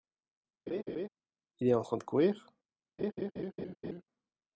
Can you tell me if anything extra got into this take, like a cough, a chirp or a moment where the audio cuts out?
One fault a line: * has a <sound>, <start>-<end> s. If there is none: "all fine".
* has a laugh, 0.7-1.1 s
* has a laugh, 3.0-4.0 s